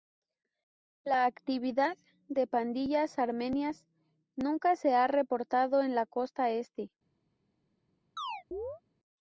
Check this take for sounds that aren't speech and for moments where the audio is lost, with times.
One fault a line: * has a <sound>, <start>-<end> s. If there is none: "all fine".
* has a chirp, 8.2-8.8 s